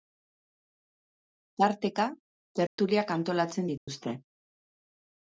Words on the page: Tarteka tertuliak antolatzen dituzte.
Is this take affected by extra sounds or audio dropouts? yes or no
yes